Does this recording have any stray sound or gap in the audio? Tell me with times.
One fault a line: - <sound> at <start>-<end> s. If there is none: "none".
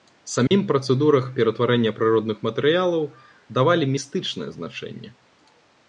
- dropout at 0.5-0.5 s